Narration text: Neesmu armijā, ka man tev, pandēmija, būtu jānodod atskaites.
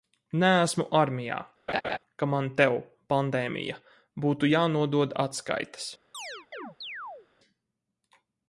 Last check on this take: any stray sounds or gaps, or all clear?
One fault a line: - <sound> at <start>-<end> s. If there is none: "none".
- laugh at 1.7-2.0 s
- chirp at 6.1-7.3 s